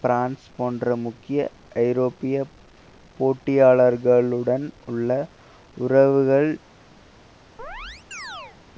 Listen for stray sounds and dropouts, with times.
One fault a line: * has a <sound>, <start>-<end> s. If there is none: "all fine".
* has a chirp, 7.6-8.6 s